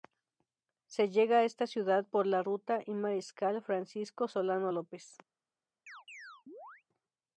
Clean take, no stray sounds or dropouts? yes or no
no